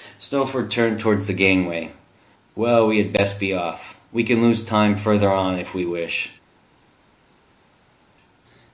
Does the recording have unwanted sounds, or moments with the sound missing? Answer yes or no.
no